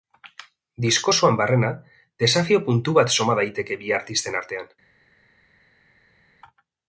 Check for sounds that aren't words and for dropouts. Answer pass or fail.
pass